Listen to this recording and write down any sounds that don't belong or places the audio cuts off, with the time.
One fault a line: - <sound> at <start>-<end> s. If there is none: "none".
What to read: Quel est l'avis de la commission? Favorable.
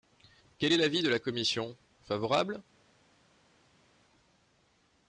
none